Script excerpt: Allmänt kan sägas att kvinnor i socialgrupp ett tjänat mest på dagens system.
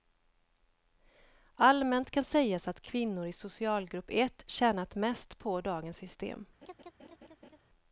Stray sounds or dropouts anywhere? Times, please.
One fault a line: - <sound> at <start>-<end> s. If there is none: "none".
- laugh at 6.6-7.6 s